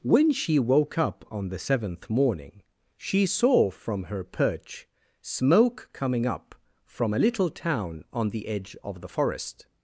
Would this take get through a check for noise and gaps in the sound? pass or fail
pass